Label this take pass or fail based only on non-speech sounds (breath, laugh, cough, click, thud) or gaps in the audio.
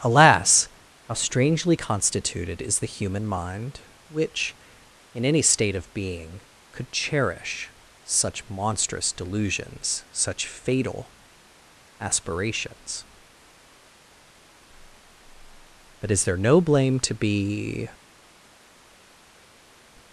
pass